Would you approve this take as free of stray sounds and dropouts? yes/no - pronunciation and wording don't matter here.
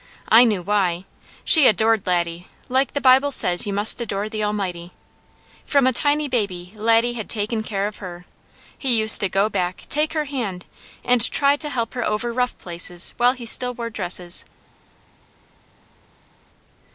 yes